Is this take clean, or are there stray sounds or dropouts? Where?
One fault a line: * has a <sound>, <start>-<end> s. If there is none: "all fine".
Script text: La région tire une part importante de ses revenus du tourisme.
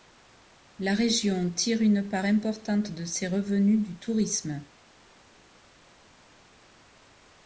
all fine